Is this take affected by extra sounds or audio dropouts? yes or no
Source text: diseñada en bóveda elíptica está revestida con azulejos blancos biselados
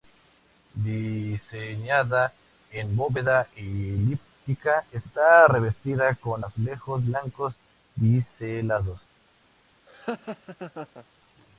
yes